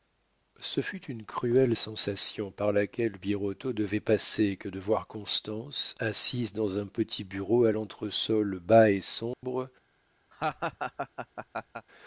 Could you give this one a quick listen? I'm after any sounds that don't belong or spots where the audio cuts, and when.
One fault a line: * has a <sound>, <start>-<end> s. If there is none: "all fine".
* has a dropout, 9.3-9.4 s
* has a laugh, 10.3-11.9 s